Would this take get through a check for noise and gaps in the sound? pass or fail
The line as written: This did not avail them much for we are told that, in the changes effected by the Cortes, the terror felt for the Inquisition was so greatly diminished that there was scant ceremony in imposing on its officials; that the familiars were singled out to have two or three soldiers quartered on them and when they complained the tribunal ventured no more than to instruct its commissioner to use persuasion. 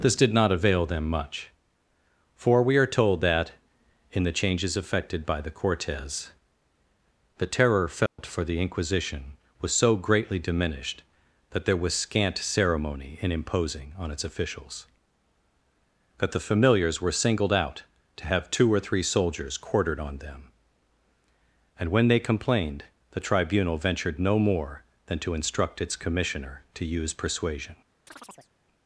fail